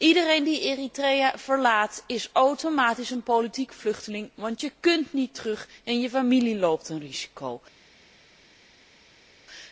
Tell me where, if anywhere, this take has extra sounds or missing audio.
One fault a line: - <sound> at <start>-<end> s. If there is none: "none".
none